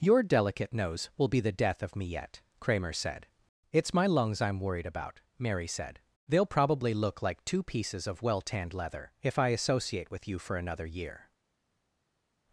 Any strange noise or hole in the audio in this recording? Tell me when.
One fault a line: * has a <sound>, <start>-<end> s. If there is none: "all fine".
all fine